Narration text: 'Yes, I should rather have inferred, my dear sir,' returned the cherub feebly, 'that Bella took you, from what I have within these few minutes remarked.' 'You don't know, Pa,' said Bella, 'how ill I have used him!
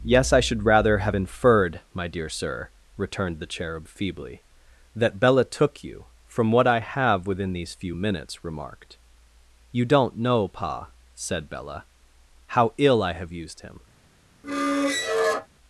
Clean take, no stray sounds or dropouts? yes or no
no